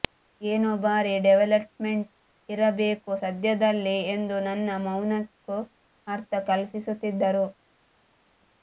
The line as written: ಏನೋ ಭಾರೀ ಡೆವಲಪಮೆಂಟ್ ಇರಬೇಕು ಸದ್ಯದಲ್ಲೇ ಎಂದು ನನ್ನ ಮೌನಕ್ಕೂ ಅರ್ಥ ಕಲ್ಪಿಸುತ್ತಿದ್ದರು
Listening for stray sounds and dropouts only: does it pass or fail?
pass